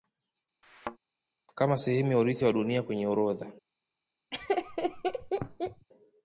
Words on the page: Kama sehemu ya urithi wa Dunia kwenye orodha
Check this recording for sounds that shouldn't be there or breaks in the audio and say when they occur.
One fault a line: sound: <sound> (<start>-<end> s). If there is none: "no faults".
sound: thud (0.6-1.0 s)
sound: laugh (4.3-5.9 s)